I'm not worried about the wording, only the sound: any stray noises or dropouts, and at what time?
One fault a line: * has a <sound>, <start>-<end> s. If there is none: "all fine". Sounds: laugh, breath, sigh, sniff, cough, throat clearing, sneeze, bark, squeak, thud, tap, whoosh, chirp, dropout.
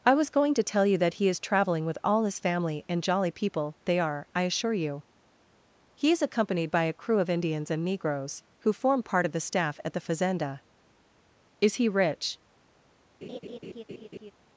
* has a laugh, 13.2-14.3 s